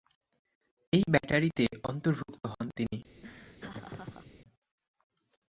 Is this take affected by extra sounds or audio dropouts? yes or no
yes